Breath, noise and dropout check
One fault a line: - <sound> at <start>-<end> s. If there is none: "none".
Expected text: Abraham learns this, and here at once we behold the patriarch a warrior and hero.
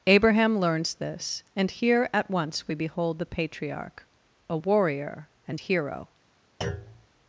- thud at 6.6-7.1 s